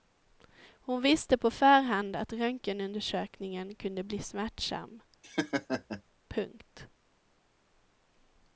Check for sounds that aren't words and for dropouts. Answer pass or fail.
fail